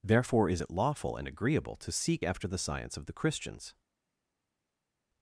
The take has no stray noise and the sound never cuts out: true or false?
true